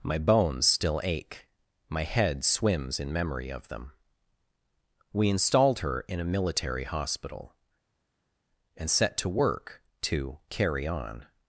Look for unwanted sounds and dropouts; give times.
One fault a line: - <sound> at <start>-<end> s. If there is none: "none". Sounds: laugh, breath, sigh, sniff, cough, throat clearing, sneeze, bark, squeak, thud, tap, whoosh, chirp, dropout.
none